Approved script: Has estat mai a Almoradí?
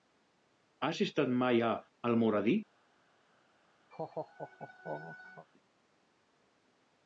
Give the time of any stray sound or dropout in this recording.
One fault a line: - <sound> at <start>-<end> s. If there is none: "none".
- laugh at 3.9-5.5 s